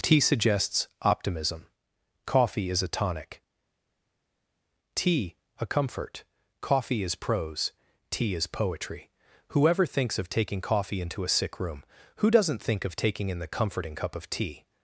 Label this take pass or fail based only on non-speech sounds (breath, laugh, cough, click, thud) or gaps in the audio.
pass